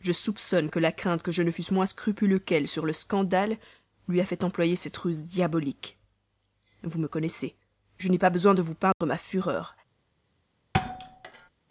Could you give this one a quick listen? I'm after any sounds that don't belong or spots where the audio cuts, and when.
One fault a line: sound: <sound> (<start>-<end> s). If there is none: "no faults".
sound: dropout (8.9-9.0 s)
sound: thud (10.7-11.5 s)